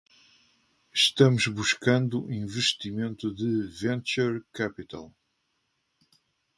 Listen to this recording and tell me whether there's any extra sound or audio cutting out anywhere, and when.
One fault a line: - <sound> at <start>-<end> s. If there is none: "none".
none